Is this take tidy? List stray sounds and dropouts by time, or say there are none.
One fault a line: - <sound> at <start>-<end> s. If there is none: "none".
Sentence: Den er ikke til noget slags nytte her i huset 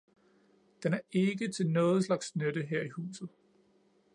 none